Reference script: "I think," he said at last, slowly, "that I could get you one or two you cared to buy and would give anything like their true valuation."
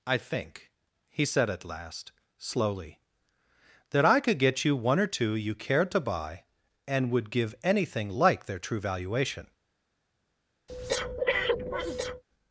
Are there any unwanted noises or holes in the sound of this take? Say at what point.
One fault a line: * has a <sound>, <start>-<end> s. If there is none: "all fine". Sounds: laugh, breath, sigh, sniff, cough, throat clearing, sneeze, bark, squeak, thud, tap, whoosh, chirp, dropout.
* has a breath, 10.7-12.2 s